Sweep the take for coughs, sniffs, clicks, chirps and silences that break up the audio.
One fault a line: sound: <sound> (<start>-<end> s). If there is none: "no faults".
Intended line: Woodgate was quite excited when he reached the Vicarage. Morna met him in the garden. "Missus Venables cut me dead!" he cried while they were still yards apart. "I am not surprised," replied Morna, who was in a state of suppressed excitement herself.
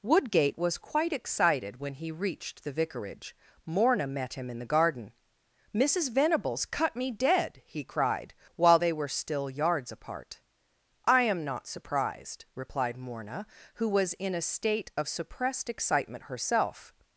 no faults